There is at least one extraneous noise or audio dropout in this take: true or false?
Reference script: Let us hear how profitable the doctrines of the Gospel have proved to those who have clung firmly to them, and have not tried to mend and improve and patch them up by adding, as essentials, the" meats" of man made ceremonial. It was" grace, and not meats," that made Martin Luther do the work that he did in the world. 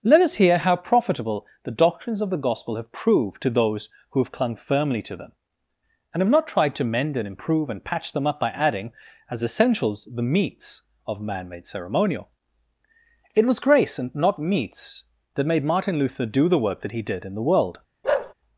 true